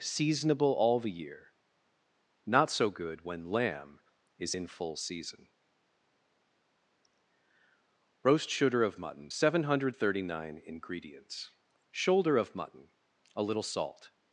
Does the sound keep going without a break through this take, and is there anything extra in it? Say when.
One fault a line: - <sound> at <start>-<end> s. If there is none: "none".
none